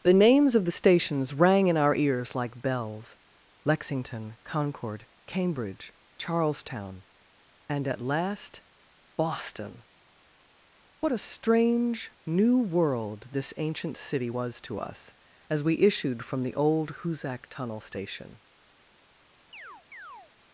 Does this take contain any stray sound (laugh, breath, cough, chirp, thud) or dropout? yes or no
yes